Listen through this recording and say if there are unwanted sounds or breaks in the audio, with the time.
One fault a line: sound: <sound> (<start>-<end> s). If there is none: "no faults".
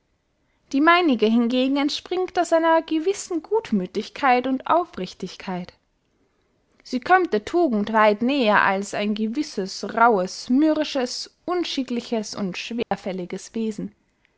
sound: dropout (12.8-12.9 s)